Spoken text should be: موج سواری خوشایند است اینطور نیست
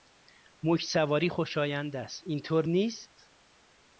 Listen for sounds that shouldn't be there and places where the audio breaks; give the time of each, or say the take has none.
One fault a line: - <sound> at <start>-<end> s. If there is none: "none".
none